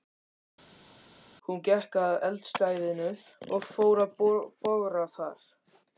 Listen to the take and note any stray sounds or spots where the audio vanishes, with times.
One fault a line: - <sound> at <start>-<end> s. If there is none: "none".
none